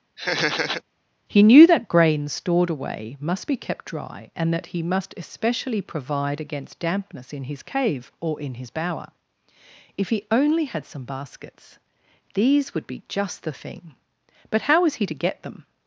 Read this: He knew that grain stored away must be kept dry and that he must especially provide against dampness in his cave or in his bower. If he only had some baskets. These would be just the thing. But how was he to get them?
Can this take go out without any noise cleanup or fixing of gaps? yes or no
no